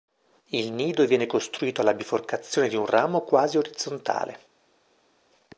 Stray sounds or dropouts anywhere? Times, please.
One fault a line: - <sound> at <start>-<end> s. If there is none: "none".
none